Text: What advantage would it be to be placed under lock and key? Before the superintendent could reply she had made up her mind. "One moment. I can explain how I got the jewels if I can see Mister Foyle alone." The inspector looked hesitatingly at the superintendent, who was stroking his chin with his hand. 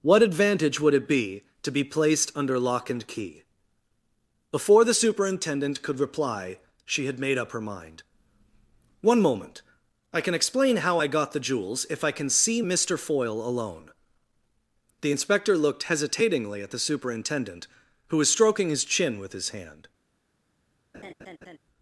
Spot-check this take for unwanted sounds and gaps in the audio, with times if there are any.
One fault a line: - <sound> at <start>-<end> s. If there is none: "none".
- laugh at 20.9-21.6 s